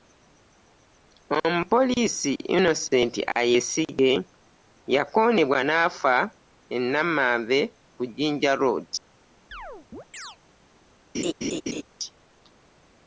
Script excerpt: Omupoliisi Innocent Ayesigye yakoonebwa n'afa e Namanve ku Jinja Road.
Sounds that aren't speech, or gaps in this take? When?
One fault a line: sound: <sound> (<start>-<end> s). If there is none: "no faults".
sound: chirp (9.5-10.4 s)
sound: laugh (11.1-11.8 s)